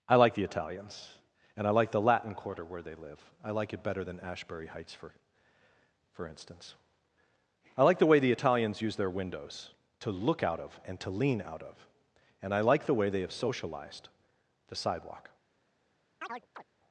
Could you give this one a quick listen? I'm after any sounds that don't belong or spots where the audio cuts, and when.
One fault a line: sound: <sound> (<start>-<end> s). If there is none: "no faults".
sound: chirp (16.2-16.6 s)